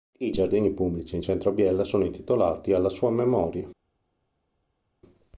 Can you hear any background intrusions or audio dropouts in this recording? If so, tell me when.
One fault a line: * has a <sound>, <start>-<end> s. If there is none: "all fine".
all fine